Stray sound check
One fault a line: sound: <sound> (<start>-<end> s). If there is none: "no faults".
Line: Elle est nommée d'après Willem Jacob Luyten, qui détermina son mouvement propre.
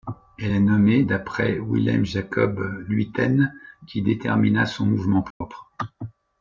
sound: dropout (5.3-5.4 s)